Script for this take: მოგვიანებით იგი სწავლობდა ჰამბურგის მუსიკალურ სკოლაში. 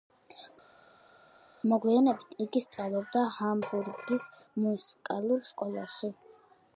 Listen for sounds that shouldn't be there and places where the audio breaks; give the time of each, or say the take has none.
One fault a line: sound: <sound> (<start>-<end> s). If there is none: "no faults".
no faults